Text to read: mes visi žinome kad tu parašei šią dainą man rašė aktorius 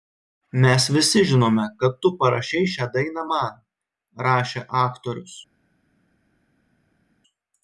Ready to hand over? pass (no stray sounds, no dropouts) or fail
pass